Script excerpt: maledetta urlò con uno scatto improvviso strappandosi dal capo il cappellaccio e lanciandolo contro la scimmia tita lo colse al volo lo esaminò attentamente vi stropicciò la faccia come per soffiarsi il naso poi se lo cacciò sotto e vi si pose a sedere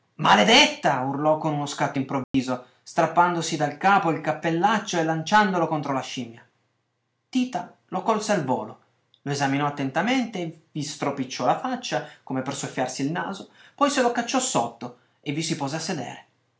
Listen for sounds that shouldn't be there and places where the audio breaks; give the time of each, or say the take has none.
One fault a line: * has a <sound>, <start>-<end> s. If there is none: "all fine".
* has a dropout, 2.2-2.3 s